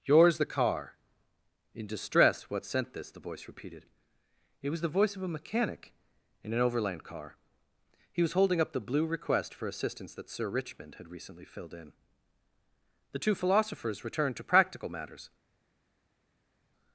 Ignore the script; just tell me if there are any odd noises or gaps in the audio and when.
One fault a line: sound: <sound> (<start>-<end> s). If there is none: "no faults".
no faults